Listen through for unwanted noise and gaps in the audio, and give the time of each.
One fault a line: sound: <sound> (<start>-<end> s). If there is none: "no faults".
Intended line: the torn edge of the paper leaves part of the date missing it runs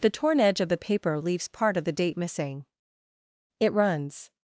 no faults